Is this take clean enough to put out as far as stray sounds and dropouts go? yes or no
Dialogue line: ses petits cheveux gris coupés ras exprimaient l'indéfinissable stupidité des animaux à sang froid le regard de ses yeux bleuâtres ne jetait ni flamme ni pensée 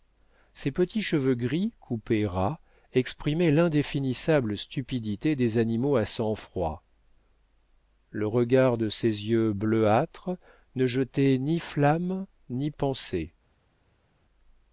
yes